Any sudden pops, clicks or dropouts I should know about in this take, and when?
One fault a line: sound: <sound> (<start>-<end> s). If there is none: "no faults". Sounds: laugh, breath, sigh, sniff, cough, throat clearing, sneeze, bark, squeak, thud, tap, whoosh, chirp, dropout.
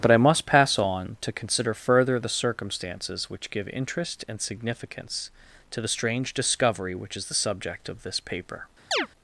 sound: chirp (8.9-9.1 s)